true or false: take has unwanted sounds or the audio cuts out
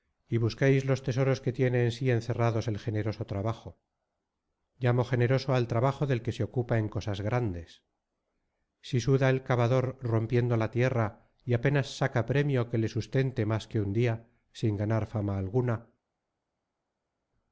false